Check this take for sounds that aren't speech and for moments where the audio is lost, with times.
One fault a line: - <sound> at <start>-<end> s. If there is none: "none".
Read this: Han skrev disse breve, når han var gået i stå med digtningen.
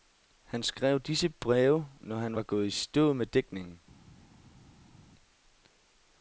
none